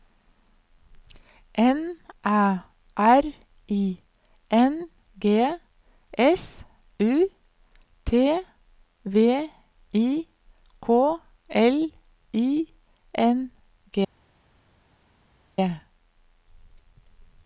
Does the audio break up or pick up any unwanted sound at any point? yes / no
no